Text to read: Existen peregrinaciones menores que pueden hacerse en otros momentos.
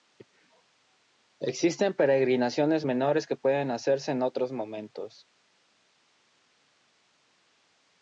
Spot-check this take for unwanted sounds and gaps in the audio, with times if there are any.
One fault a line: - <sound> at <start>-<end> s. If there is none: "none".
none